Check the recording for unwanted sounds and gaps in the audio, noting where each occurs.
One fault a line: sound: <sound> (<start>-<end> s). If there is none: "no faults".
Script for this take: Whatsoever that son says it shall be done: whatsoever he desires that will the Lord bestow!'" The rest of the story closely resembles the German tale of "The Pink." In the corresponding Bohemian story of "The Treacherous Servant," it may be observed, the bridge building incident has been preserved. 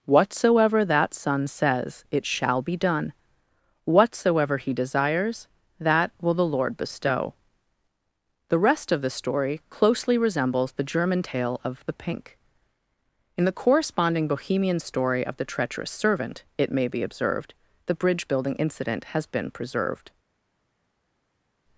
no faults